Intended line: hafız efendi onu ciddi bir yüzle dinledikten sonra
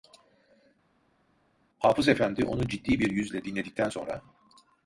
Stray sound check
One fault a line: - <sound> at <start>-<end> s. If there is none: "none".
none